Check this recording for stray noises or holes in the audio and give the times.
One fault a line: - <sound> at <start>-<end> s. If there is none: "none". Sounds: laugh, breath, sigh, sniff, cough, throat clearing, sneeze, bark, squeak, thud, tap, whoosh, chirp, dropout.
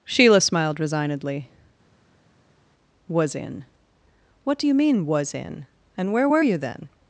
none